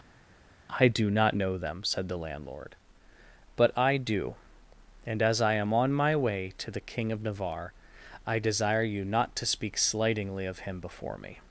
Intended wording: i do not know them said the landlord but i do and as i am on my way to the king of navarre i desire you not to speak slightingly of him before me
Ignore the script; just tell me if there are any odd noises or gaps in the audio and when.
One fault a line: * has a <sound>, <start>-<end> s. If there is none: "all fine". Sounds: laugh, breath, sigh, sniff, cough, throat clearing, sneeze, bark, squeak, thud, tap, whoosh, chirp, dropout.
all fine